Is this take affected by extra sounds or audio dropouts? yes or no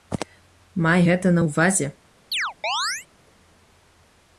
yes